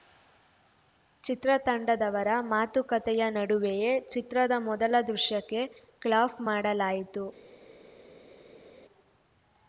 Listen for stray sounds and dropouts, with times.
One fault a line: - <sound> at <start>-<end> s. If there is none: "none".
none